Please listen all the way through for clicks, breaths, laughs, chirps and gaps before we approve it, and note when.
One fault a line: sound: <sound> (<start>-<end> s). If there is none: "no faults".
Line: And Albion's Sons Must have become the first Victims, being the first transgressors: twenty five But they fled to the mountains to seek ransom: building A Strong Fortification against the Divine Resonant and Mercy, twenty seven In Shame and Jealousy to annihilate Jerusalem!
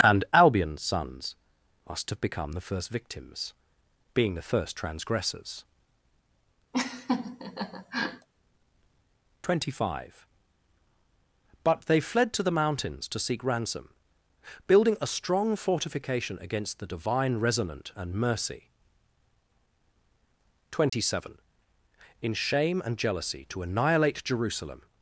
sound: laugh (6.7-8.3 s)
sound: dropout (20.9-20.9 s)